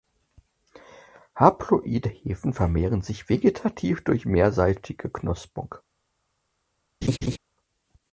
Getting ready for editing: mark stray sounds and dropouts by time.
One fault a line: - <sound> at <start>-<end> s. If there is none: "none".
- laugh at 7.0-7.4 s